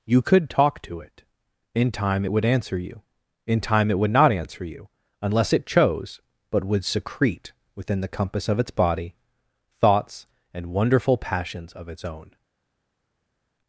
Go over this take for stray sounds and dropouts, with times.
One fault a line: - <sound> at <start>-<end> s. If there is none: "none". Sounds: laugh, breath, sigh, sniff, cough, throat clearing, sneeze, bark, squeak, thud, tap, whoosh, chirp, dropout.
none